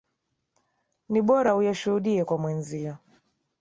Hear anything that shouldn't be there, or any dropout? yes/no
no